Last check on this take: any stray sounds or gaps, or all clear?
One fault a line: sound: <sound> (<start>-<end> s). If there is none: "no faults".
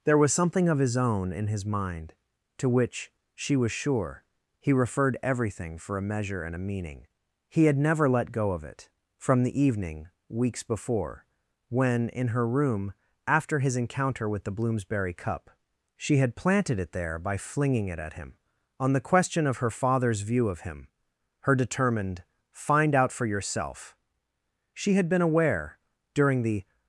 no faults